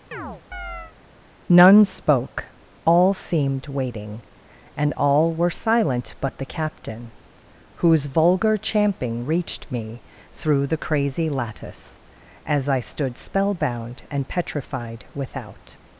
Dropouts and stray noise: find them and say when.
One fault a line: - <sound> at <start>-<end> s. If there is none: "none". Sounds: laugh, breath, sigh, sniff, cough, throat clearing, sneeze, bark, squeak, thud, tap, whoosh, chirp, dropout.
- chirp at 0.1-0.9 s